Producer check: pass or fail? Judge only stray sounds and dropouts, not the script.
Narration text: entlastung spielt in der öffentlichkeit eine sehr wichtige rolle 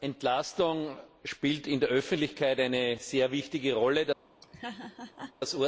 fail